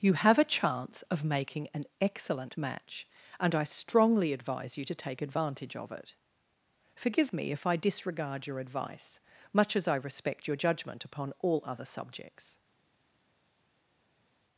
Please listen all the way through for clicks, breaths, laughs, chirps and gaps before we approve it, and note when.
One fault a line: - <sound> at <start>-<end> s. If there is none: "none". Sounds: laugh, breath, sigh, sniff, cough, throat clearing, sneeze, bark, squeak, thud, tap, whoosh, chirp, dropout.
none